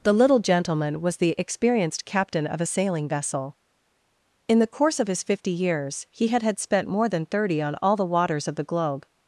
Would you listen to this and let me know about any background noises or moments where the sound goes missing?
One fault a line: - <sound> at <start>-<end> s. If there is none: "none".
none